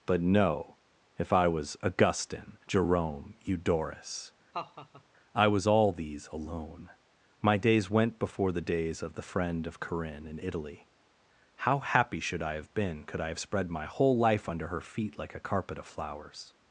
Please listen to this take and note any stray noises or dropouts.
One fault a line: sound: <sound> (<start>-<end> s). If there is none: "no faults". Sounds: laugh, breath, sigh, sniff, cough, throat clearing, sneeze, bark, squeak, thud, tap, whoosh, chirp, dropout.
sound: laugh (4.5-5.0 s)